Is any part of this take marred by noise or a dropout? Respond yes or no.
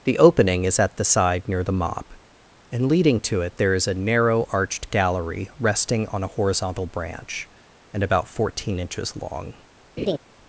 yes